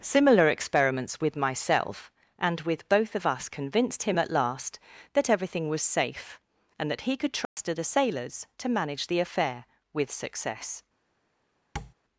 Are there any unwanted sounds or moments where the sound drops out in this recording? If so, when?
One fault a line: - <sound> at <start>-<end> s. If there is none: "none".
- dropout at 7.5-7.6 s
- tap at 11.8-11.9 s